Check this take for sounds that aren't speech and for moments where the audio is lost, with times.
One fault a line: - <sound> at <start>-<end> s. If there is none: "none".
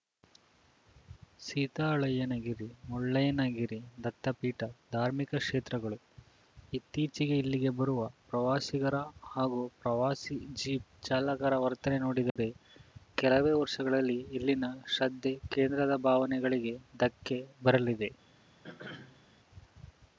- dropout at 12.3-12.4 s
- throat clearing at 18.6-19.2 s